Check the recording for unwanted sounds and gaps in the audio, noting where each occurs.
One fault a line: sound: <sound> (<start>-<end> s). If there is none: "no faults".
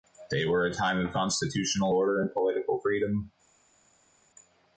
no faults